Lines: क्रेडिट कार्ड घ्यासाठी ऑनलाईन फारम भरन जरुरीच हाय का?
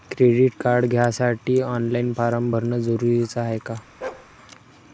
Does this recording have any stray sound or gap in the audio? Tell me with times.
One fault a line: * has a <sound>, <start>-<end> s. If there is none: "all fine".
* has a bark, 4.0-4.3 s